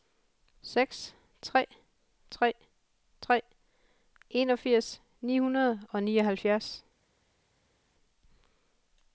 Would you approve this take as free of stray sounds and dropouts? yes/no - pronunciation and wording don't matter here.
yes